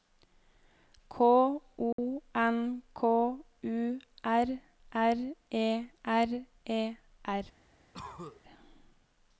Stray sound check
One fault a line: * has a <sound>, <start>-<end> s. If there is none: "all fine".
* has a dropout, 1.9-2.0 s
* has a cough, 7.9-8.4 s